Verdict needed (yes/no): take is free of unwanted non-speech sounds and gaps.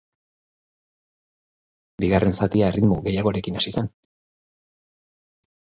yes